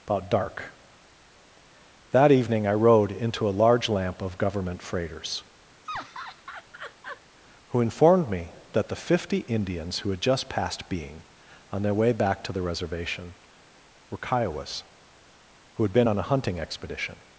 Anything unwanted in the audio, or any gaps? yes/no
yes